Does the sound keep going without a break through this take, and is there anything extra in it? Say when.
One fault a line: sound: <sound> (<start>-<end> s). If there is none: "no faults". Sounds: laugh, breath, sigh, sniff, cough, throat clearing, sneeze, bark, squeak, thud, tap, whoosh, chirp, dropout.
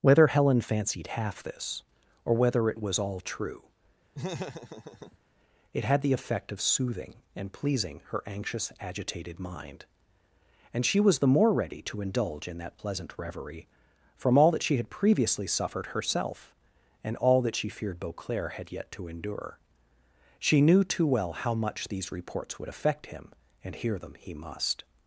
sound: laugh (4.1-5.2 s)